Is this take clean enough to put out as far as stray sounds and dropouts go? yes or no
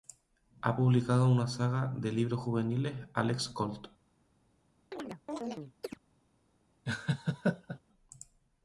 no